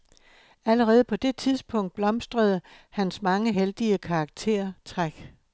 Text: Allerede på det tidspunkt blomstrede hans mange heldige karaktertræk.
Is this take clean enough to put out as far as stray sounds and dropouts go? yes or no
yes